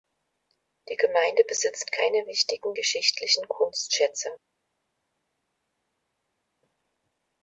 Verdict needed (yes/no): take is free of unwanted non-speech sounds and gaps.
yes